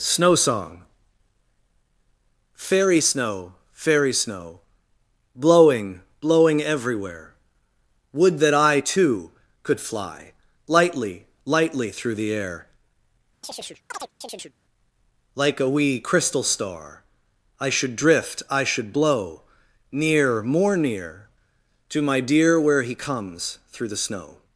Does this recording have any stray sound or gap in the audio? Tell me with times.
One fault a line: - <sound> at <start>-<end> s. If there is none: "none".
- chirp at 13.4-14.5 s